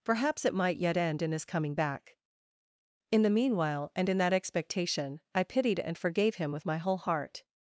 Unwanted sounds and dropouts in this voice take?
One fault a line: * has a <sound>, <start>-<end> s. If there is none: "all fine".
all fine